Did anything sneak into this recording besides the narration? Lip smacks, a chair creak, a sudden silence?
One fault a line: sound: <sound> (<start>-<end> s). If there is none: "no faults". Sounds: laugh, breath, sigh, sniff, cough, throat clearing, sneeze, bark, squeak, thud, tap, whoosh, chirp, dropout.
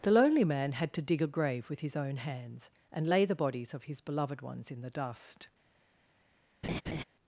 sound: laugh (6.6-7.0 s)